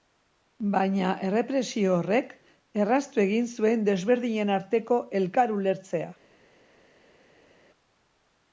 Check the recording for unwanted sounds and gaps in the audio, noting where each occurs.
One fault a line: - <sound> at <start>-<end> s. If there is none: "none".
none